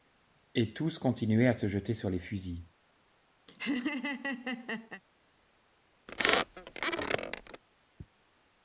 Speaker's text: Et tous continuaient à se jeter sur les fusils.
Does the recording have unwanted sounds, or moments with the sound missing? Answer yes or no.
yes